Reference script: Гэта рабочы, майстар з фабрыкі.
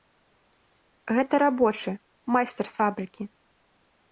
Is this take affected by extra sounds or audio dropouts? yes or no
no